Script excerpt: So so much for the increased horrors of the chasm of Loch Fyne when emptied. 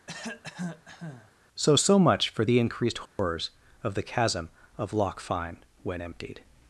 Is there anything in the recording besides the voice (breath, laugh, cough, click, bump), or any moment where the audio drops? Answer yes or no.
yes